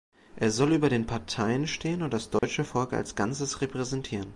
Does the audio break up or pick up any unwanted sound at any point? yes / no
yes